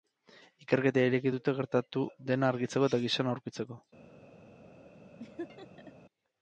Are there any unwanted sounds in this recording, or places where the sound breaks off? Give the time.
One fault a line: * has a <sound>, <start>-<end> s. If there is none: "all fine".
* has a laugh, 5.2-5.9 s